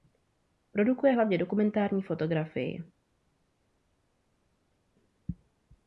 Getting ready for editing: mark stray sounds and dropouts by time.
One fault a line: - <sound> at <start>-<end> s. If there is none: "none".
none